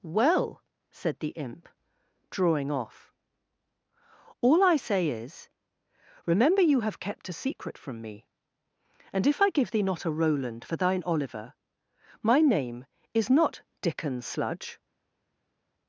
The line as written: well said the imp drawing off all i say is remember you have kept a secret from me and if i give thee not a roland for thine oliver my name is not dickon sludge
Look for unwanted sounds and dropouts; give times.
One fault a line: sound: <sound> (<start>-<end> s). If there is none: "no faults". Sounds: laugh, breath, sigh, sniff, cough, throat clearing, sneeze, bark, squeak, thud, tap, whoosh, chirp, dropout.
no faults